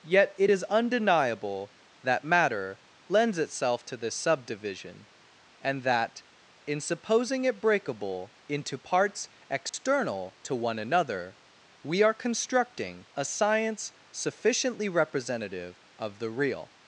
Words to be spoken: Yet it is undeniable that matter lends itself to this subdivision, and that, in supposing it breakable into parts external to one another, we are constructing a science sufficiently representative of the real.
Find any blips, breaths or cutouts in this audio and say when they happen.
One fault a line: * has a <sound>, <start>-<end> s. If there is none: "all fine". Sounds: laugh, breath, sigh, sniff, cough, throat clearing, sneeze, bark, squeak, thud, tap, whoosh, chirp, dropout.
* has a dropout, 9.7-9.7 s